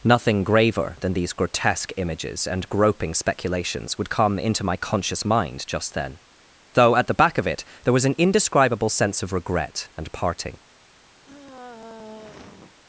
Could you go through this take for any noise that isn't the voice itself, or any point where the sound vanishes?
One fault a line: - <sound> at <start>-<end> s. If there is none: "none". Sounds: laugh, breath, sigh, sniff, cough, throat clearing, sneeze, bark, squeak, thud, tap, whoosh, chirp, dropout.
- sigh at 11.2-12.8 s